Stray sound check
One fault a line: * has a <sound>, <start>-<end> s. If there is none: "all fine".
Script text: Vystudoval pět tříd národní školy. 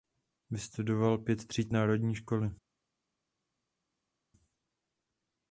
all fine